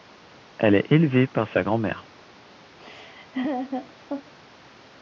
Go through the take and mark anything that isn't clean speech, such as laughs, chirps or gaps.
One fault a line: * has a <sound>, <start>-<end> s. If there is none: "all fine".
* has a laugh, 2.8-4.3 s